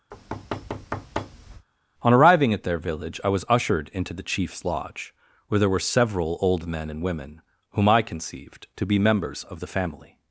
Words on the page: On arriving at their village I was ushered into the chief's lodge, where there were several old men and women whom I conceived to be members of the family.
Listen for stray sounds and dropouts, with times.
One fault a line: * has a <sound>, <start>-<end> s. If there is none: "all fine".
* has a thud, 0.1-1.7 s